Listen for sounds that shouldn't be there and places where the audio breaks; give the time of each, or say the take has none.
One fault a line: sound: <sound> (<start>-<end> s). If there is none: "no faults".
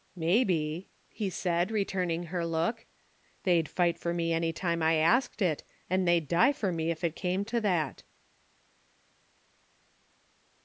no faults